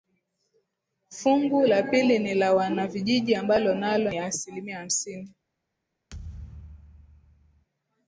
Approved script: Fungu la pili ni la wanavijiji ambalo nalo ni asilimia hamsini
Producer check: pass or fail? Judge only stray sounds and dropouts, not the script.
fail